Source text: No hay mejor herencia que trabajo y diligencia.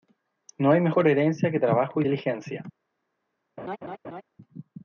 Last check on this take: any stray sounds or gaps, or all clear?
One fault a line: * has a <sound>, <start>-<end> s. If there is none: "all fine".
* has a laugh, 3.6-4.2 s